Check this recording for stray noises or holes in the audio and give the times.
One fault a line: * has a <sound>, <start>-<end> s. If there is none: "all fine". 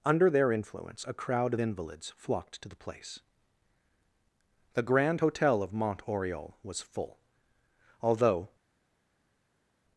all fine